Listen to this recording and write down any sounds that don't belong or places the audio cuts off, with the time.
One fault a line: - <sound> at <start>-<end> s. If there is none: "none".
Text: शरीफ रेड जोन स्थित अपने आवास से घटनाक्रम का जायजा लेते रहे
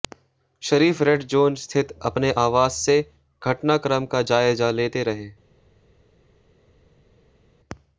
none